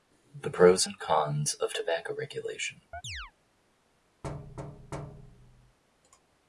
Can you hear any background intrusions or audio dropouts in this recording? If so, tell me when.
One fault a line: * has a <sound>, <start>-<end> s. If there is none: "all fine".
* has a chirp, 2.9-3.3 s
* has a thud, 4.2-5.8 s